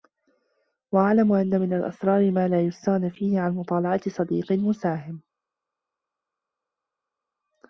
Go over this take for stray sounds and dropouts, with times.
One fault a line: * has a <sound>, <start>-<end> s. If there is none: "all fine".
all fine